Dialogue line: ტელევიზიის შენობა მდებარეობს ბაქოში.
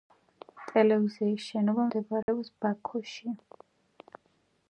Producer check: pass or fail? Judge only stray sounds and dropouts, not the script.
fail